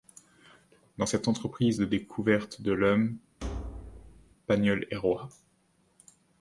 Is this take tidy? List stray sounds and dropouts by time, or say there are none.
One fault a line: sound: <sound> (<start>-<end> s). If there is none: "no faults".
sound: thud (3.4-4.4 s)